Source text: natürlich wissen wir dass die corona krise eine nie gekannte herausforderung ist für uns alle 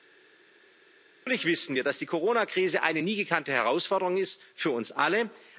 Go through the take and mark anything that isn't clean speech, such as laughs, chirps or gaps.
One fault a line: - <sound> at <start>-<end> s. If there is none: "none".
none